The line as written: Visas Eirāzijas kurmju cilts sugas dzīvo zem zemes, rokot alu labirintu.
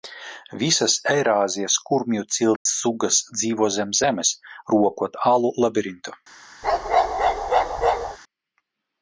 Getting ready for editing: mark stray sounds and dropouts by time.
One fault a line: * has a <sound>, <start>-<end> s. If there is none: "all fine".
* has a dropout, 2.6-2.7 s
* has a bark, 6.6-8.2 s